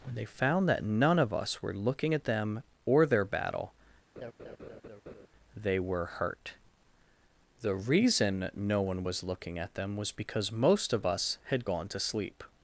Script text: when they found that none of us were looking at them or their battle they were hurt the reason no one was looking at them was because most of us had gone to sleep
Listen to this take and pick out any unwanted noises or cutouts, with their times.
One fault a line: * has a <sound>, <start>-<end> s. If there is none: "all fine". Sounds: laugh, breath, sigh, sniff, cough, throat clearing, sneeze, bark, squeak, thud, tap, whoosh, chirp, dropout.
* has a laugh, 4.2-5.3 s